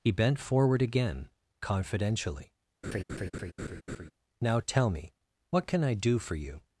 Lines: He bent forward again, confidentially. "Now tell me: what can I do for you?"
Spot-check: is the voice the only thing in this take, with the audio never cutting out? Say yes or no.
no